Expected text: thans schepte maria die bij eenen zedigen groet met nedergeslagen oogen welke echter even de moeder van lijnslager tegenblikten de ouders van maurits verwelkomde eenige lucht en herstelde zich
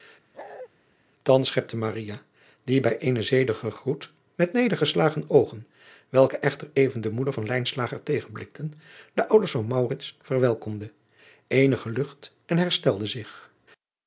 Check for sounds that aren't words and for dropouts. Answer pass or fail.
fail